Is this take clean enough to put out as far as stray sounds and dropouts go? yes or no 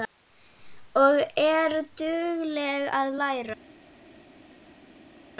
yes